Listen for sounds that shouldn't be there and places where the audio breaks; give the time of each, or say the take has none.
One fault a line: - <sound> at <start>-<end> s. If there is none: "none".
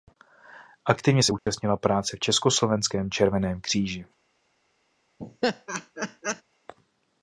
- dropout at 1.4-1.5 s
- laugh at 5.2-6.4 s